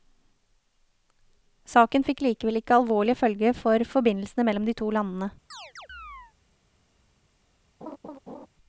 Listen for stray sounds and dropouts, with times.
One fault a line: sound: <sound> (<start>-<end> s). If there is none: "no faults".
sound: chirp (5.5-6.3 s)
sound: laugh (7.8-8.5 s)